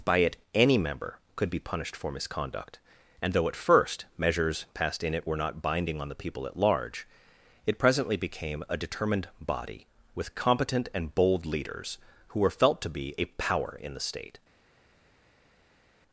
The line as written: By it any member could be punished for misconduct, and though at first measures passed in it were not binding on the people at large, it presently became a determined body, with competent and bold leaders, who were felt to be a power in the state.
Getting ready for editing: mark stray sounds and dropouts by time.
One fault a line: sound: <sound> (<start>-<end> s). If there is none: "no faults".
no faults